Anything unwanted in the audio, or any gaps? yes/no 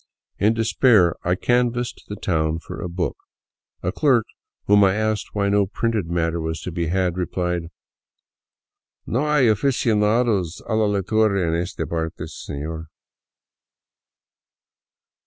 no